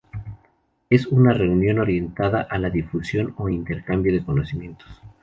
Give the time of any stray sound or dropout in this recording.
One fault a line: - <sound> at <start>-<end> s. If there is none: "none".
none